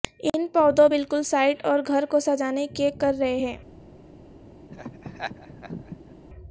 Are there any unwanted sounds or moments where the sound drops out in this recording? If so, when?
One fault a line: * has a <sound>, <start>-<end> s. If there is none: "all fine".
* has a laugh, 4.7-6.2 s